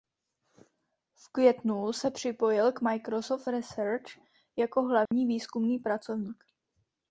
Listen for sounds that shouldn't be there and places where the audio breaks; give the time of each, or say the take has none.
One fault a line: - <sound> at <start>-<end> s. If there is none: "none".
- dropout at 5.1-5.1 s